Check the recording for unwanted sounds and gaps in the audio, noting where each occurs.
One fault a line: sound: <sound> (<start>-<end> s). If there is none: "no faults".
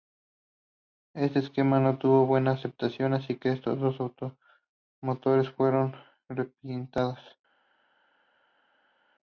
no faults